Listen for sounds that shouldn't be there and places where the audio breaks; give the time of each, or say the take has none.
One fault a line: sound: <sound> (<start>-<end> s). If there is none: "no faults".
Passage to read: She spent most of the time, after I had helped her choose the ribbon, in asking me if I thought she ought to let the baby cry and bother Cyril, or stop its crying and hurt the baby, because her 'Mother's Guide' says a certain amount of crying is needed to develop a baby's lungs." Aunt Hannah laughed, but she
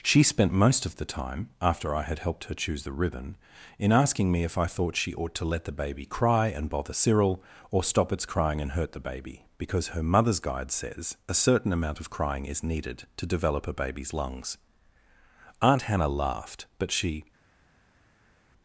no faults